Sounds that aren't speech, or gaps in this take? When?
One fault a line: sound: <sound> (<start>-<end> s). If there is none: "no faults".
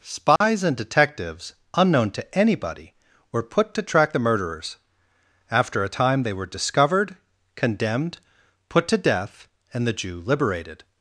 sound: dropout (0.4-0.4 s)